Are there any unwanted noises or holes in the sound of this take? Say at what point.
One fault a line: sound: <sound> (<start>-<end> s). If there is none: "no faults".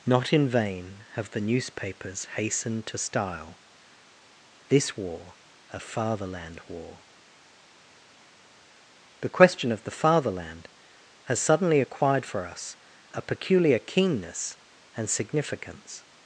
no faults